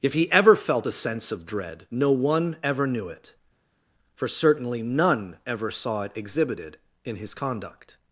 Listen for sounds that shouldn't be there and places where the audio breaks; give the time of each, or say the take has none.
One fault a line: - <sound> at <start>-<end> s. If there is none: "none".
none